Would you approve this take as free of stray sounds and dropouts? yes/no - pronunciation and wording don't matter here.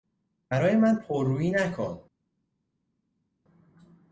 yes